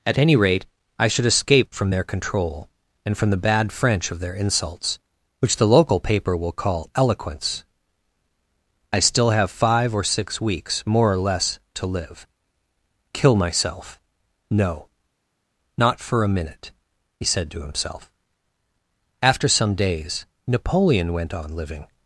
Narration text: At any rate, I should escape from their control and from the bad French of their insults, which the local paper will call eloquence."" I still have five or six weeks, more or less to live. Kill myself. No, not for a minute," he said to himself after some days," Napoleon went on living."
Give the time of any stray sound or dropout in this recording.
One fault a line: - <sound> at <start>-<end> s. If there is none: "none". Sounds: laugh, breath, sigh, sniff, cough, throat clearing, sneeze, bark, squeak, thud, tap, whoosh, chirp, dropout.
none